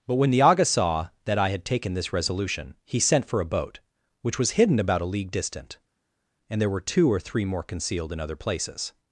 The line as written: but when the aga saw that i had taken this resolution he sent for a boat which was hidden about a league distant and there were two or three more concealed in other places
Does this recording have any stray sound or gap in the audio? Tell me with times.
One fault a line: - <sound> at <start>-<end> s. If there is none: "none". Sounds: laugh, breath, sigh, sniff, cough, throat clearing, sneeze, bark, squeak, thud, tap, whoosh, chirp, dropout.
none